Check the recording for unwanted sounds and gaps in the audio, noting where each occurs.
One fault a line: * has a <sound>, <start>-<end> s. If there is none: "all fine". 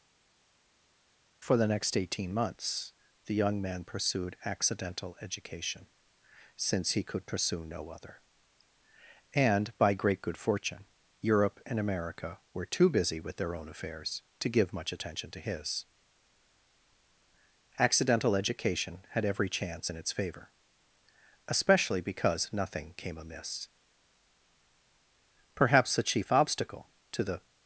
all fine